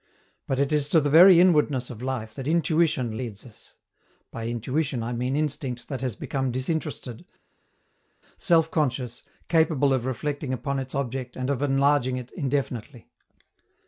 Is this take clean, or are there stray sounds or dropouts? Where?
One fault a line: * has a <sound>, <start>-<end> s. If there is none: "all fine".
all fine